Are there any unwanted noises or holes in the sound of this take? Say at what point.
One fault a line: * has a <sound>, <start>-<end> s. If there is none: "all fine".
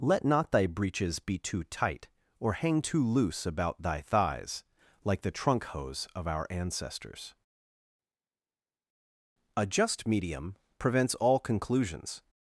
all fine